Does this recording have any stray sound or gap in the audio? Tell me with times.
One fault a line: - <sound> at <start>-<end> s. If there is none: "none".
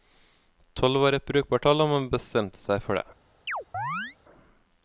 - chirp at 3.5-4.2 s